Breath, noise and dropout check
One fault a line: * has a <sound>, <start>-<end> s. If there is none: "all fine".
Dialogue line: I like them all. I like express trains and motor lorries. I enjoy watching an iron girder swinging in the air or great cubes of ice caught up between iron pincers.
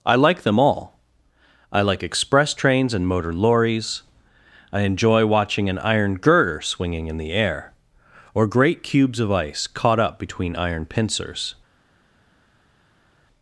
all fine